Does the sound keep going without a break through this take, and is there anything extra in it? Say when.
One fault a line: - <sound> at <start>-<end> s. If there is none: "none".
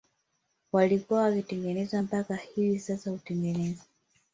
none